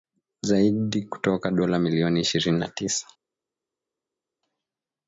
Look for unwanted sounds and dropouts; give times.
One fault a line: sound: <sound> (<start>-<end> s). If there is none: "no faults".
no faults